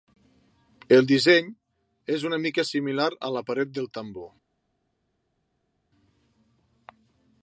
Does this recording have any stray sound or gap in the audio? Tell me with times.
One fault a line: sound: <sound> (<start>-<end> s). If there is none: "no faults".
no faults